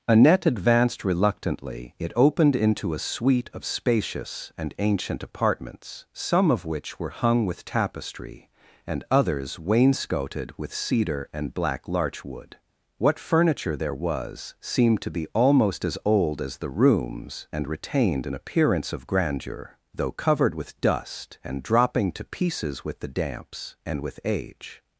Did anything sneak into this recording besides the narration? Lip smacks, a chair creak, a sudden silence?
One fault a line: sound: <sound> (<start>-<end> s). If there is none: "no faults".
no faults